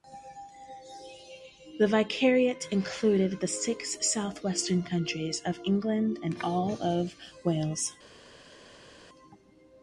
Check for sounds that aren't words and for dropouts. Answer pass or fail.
pass